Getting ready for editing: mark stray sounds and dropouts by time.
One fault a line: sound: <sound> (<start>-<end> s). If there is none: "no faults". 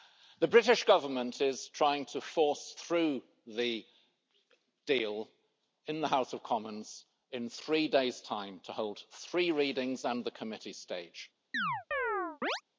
sound: chirp (11.5-12.6 s)